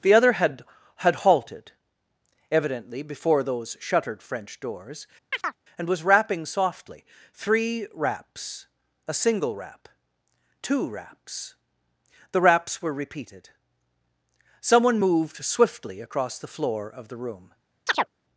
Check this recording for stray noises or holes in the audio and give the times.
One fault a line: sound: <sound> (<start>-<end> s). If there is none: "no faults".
sound: chirp (5.3-5.6 s)
sound: chirp (17.9-18.1 s)